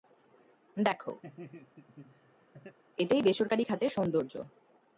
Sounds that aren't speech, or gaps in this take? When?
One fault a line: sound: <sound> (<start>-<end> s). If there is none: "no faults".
sound: laugh (1.2-2.8 s)